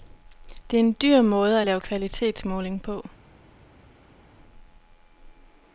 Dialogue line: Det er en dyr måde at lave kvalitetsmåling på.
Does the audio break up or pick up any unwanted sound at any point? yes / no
no